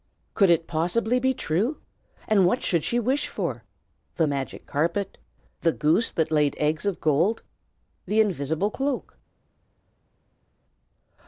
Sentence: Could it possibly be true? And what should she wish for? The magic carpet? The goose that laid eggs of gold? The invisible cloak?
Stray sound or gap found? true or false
false